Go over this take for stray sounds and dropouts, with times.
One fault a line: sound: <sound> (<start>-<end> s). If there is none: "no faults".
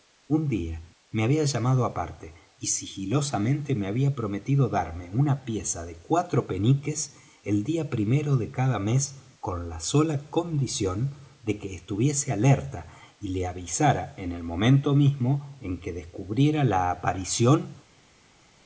no faults